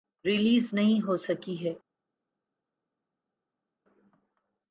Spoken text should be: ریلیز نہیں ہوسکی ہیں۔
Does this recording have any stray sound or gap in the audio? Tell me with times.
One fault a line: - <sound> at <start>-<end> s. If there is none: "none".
none